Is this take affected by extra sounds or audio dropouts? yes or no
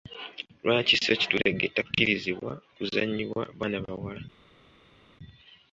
no